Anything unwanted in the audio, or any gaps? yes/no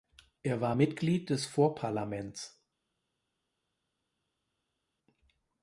no